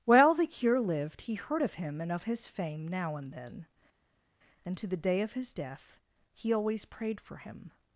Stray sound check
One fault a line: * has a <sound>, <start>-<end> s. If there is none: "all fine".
all fine